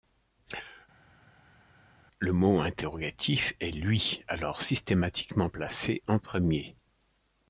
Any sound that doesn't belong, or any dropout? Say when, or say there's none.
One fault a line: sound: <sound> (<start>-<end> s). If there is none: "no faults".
no faults